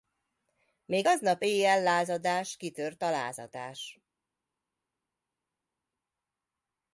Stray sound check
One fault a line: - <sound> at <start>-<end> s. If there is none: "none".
none